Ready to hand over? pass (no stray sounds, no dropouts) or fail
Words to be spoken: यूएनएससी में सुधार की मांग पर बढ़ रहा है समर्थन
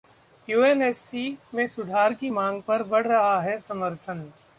pass